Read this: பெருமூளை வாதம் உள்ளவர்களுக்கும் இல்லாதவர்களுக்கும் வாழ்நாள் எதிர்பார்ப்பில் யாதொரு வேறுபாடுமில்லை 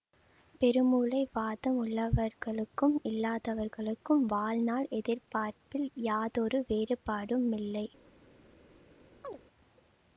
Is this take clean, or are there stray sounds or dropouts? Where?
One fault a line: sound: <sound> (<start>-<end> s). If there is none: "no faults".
sound: chirp (9.2-9.4 s)